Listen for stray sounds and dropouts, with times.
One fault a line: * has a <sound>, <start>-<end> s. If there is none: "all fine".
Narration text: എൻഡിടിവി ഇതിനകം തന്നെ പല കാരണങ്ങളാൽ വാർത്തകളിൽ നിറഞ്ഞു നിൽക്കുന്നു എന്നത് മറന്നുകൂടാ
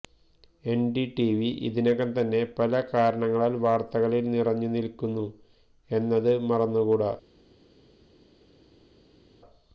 all fine